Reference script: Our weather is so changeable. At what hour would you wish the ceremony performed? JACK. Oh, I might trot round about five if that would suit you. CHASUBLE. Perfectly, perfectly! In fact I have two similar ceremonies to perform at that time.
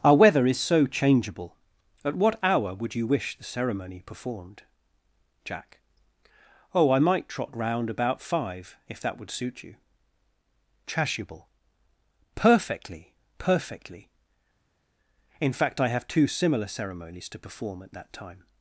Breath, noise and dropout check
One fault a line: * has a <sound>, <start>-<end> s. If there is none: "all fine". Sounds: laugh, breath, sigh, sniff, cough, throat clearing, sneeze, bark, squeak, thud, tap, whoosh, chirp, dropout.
all fine